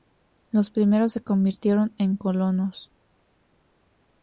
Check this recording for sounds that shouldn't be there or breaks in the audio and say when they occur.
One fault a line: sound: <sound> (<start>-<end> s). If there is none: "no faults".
no faults